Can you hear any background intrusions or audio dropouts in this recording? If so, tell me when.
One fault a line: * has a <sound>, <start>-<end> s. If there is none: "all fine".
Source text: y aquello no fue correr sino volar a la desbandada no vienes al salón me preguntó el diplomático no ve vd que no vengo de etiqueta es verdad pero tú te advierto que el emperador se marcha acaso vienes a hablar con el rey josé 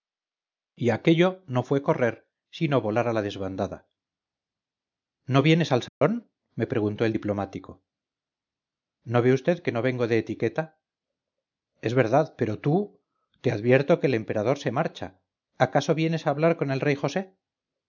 * has a dropout, 5.9-6.0 s